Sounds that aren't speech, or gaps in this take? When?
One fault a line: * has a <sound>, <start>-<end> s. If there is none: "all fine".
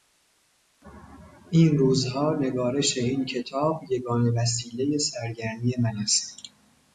all fine